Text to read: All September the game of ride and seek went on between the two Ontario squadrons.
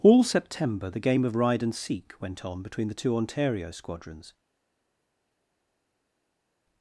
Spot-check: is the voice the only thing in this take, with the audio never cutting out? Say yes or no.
yes